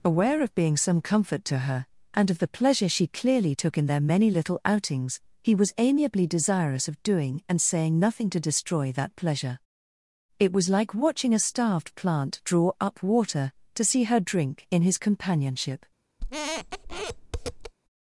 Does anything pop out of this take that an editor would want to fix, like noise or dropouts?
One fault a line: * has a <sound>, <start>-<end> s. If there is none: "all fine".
* has a squeak, 16.2-17.7 s